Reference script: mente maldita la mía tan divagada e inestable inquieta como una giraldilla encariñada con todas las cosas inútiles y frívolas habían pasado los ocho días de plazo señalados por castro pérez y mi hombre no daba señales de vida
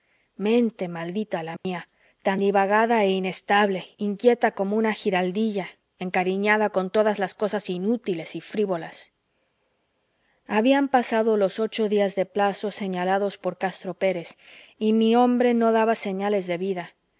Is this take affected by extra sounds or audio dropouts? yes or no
yes